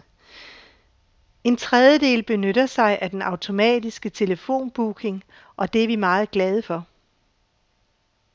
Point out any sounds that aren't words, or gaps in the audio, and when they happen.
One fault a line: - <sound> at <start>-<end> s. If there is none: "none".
none